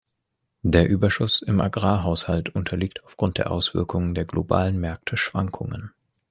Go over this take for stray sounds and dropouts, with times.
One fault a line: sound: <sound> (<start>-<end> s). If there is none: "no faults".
no faults